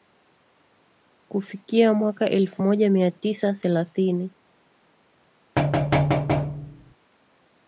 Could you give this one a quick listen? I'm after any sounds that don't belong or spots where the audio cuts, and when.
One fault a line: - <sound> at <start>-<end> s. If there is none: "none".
- thud at 5.6-6.9 s